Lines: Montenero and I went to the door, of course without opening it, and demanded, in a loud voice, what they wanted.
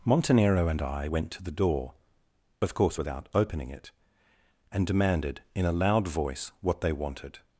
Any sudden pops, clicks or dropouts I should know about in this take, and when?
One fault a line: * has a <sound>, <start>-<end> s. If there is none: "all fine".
all fine